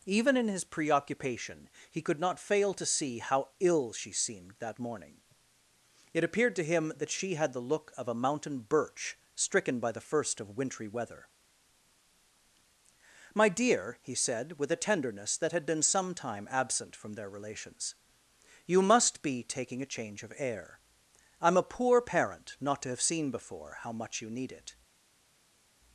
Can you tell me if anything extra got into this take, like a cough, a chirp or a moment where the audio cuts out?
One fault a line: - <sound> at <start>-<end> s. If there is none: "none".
none